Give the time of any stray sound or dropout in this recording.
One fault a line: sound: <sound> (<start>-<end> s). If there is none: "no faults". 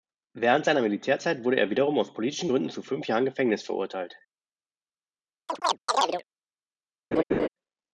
sound: chirp (5.5-6.2 s)
sound: laugh (7.1-7.5 s)